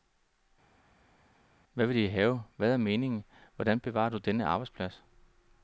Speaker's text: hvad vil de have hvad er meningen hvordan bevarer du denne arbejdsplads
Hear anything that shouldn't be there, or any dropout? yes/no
no